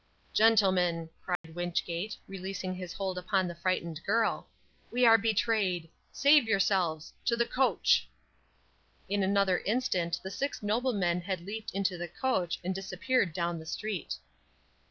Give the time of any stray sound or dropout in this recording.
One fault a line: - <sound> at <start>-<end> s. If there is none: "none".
- dropout at 1.4-1.4 s